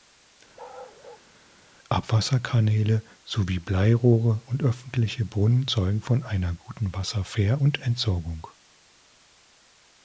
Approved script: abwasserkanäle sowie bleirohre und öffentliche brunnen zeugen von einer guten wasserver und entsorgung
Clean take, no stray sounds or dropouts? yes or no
no